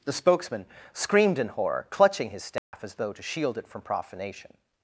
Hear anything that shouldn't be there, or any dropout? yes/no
yes